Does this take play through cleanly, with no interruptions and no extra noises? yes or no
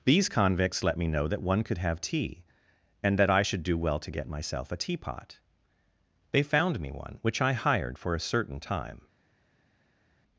yes